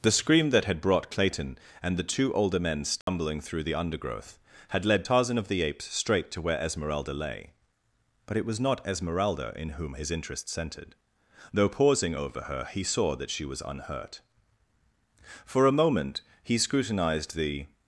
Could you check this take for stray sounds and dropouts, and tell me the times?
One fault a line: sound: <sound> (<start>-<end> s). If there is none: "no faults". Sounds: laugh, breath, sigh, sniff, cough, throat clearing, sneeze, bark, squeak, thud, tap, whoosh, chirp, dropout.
sound: dropout (3.0-3.1 s)